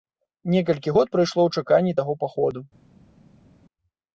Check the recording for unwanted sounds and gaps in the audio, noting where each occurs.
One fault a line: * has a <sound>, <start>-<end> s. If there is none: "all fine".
all fine